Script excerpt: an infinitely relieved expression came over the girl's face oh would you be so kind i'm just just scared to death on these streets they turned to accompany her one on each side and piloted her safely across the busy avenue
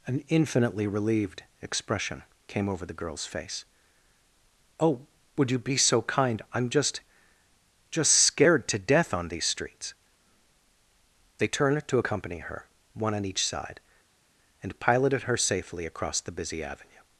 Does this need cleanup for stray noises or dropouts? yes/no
no